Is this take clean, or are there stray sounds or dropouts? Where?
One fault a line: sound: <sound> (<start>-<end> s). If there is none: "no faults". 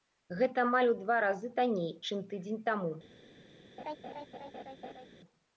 sound: laugh (3.8-5.1 s)